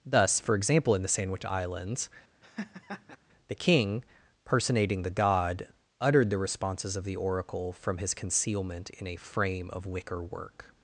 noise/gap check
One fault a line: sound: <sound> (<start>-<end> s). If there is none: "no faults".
sound: laugh (2.4-3.2 s)